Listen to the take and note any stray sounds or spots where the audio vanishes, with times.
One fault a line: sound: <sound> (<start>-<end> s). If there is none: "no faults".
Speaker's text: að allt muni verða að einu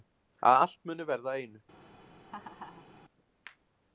sound: laugh (2.3-2.9 s)